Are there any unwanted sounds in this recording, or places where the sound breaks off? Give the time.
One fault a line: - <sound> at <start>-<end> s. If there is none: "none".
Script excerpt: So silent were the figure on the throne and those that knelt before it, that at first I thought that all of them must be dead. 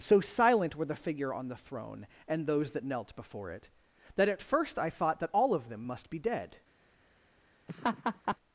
- laugh at 7.7-8.4 s